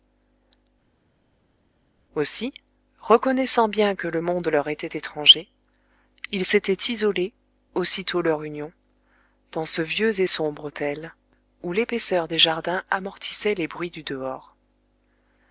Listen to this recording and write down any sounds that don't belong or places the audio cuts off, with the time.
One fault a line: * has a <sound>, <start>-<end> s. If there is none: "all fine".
all fine